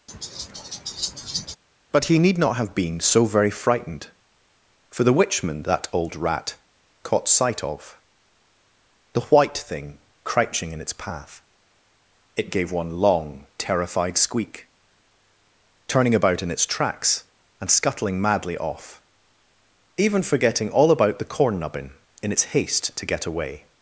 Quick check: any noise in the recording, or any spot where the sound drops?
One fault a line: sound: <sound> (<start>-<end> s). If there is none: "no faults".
sound: laugh (0.1-1.6 s)